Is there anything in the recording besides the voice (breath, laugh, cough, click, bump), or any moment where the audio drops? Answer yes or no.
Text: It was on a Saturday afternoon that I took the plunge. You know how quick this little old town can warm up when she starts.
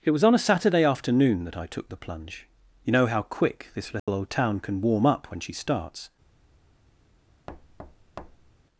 yes